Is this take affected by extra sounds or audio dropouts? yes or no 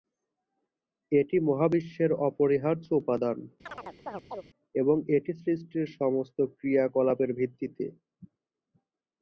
yes